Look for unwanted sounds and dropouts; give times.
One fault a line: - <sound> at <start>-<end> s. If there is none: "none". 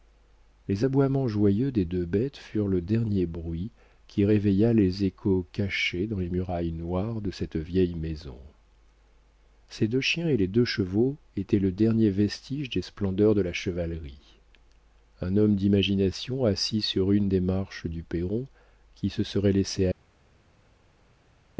none